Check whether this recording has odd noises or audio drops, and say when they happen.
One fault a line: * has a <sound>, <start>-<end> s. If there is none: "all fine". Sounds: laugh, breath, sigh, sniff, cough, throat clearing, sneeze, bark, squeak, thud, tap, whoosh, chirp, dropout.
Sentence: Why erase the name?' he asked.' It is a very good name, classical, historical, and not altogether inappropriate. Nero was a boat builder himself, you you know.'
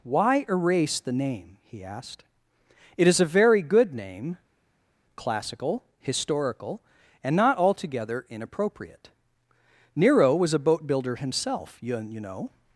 all fine